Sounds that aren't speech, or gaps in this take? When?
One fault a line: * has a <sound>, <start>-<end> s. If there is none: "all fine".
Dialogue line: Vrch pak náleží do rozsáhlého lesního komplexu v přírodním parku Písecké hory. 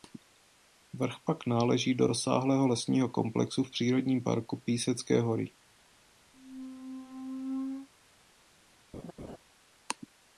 * has a squeak, 6.3-7.9 s
* has a laugh, 8.9-9.4 s